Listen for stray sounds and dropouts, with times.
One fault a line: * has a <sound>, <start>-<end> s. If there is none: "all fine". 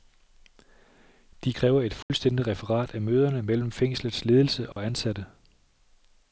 * has a dropout, 2.0-2.1 s
* has a dropout, 4.7-4.8 s